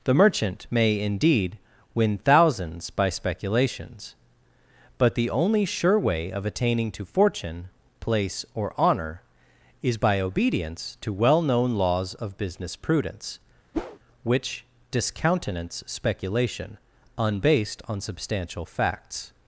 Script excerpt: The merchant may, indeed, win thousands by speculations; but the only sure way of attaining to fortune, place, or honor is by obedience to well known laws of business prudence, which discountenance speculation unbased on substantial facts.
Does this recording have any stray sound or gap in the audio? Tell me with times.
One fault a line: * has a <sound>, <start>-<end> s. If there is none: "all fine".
* has a whoosh, 13.7-14.0 s